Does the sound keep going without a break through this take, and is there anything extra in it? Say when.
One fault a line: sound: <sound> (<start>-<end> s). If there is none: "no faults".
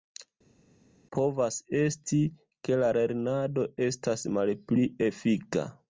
no faults